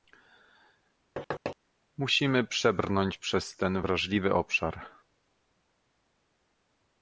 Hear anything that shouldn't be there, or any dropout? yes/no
yes